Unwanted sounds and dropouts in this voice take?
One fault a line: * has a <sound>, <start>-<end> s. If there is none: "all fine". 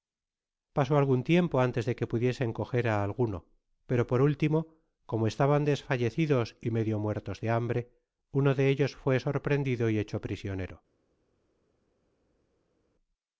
all fine